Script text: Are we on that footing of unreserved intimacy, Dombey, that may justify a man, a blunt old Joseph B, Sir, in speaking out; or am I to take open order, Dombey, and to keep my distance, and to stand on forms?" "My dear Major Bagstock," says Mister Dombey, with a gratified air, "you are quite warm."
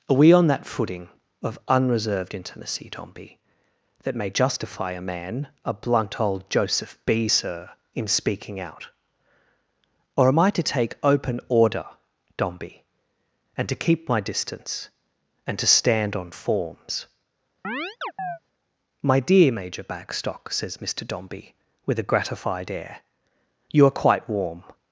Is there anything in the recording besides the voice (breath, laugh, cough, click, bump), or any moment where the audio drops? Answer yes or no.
yes